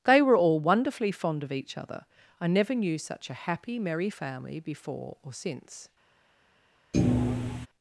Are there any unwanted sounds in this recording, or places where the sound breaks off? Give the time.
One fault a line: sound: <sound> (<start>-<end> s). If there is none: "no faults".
sound: thud (6.9-7.7 s)